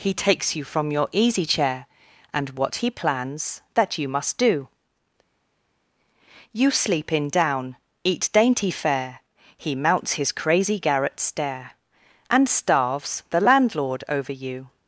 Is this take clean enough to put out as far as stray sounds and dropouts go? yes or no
yes